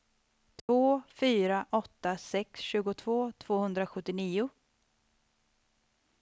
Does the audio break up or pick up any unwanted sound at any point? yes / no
yes